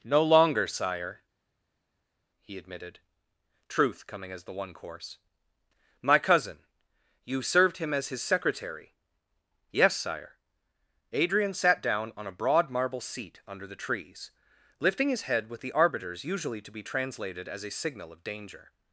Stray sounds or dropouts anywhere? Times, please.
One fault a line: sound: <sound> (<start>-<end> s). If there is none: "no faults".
no faults